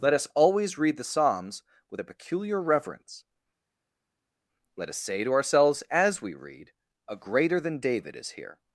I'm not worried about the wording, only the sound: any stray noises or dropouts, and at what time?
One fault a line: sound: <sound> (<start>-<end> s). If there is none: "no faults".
no faults